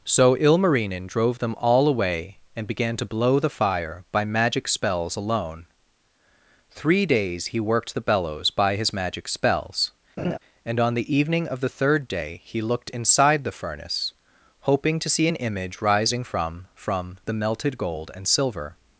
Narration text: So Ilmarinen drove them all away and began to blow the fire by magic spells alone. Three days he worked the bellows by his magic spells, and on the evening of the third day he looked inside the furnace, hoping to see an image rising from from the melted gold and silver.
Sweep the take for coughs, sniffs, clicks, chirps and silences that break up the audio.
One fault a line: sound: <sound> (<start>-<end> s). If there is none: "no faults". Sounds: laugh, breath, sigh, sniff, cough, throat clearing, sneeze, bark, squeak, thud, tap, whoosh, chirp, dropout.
sound: laugh (10.2-10.4 s)